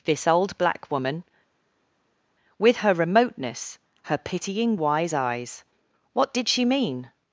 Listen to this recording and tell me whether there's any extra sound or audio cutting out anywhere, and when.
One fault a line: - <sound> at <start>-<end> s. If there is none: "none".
none